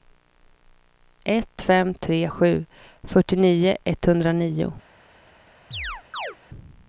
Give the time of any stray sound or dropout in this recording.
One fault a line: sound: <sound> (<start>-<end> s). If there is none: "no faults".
sound: chirp (5.7-6.4 s)